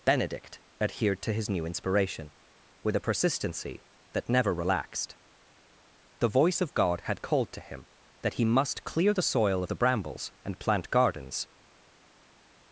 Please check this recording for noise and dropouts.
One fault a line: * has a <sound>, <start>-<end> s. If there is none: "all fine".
all fine